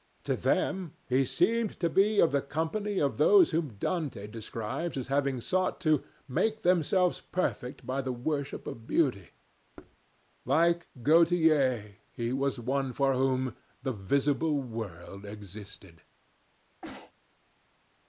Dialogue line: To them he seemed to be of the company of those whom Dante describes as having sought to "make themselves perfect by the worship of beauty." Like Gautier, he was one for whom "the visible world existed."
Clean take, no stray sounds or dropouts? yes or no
no